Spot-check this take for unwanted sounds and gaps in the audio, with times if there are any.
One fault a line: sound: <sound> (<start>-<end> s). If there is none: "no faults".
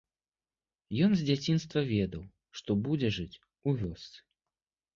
no faults